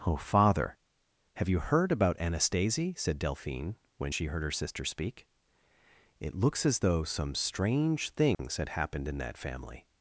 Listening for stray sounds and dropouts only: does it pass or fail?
fail